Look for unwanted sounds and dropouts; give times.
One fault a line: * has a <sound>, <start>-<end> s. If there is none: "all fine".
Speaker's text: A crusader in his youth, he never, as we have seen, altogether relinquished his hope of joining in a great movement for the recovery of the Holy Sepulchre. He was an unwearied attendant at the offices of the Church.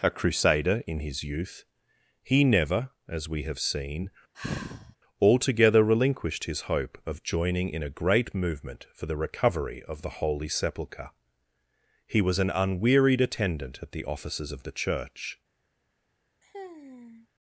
* has a sigh, 4.3-5.0 s
* has a sigh, 16.4-17.3 s